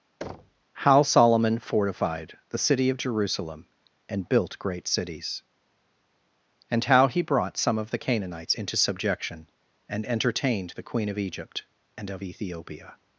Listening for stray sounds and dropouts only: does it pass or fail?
fail